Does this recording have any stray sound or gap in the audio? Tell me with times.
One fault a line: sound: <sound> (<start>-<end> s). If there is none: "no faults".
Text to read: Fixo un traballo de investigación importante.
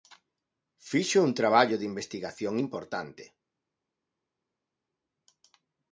no faults